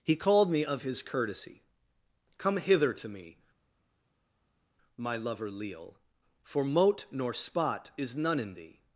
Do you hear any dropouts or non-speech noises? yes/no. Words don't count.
no